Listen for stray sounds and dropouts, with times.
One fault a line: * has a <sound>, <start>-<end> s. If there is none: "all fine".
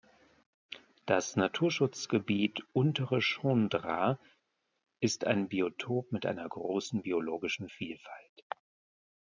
all fine